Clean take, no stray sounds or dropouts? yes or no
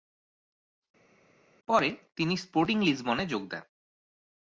yes